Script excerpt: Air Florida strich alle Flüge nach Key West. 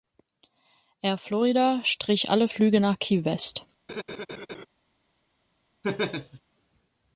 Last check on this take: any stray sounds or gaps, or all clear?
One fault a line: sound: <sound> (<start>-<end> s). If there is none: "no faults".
sound: laugh (3.9-4.7 s)
sound: laugh (5.8-6.4 s)